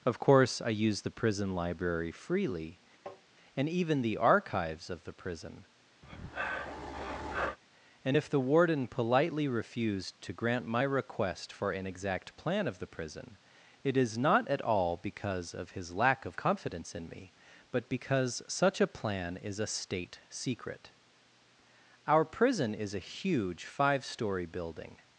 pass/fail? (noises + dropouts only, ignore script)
fail